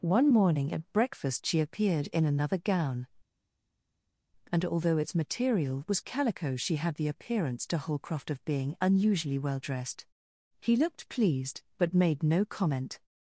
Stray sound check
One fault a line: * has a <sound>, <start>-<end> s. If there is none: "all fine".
all fine